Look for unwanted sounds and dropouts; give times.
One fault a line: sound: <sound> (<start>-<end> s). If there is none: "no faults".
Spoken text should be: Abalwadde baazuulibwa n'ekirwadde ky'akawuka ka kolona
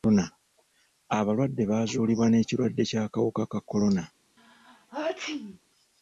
sound: sneeze (4.4-5.6 s)